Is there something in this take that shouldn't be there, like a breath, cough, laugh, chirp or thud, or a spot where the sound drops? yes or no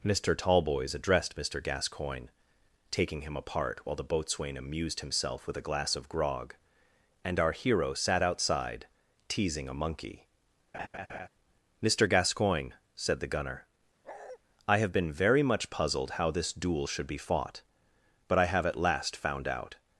yes